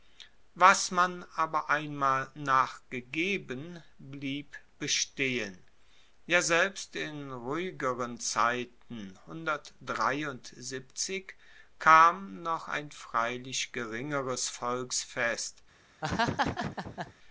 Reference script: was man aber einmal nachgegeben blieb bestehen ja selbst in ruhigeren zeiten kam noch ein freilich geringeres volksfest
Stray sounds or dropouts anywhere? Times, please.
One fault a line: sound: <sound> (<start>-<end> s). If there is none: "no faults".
sound: laugh (16.0-17.1 s)